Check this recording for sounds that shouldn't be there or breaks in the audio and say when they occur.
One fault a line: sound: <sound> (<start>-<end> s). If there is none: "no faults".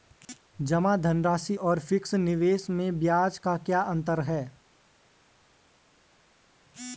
no faults